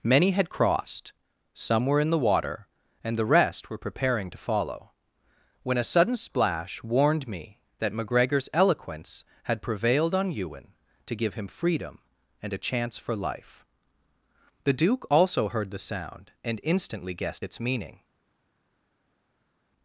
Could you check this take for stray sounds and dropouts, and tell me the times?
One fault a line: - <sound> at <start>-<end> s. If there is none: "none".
none